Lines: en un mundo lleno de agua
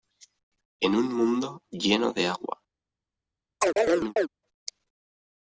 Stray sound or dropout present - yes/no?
yes